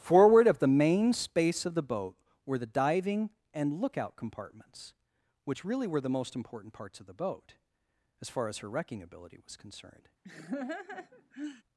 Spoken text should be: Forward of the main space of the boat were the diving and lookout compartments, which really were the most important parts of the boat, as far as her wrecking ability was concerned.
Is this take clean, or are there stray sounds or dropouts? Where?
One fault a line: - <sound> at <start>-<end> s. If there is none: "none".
- laugh at 10.2-11.6 s